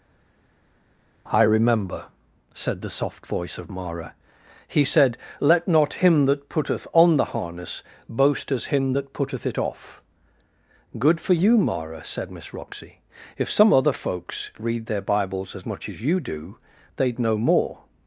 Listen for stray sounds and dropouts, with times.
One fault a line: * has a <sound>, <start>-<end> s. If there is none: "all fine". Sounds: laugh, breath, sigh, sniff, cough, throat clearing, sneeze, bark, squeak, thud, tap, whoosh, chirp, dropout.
all fine